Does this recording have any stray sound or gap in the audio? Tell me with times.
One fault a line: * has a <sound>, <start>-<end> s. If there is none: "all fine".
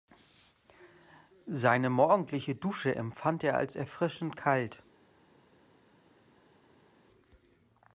all fine